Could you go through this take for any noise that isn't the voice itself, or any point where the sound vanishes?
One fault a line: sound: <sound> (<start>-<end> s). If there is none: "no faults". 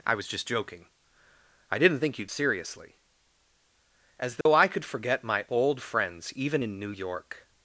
sound: dropout (4.4-4.5 s)